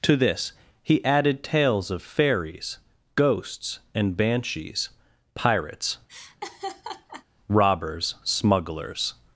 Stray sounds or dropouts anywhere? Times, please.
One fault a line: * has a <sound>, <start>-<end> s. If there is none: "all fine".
* has a laugh, 6.1-7.3 s